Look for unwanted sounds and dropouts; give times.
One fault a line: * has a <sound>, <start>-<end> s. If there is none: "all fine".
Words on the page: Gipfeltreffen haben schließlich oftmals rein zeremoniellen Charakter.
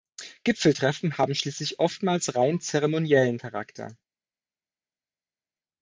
all fine